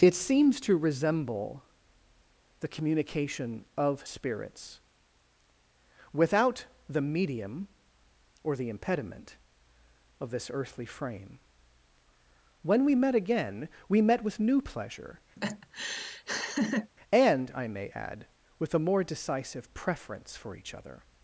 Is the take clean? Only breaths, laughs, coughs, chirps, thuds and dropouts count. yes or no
no